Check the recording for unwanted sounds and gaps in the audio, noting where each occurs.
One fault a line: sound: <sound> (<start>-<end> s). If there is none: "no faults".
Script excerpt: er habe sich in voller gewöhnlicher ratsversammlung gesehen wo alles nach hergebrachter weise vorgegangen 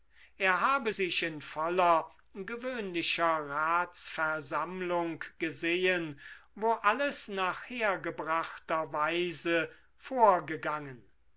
no faults